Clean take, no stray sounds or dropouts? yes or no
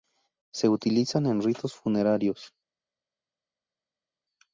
yes